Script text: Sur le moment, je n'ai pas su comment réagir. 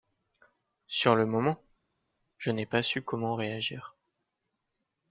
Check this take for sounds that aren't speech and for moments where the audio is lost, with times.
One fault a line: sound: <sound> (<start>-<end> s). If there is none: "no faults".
no faults